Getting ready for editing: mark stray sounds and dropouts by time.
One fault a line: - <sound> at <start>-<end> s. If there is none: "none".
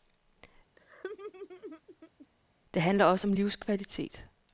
- laugh at 0.8-2.3 s